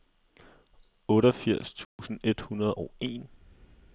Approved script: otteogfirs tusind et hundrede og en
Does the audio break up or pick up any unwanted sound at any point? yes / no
yes